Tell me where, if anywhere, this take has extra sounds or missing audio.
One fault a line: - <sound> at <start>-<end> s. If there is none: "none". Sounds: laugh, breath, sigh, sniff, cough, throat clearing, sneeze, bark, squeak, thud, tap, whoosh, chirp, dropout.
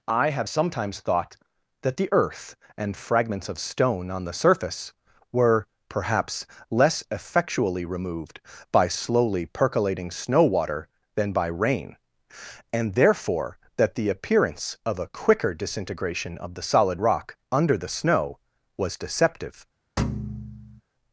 - thud at 20.0-20.8 s